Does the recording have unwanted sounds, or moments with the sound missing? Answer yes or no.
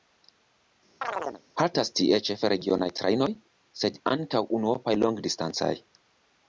yes